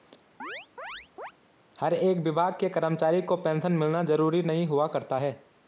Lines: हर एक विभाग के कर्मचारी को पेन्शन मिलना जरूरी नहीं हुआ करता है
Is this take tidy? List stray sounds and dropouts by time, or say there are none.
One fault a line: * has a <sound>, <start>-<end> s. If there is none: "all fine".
* has a chirp, 0.4-1.3 s